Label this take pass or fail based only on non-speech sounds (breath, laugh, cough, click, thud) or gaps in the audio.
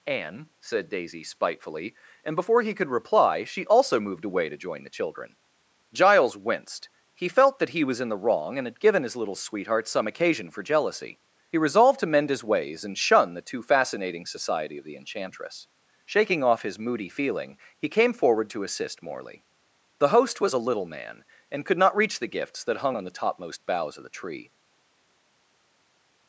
pass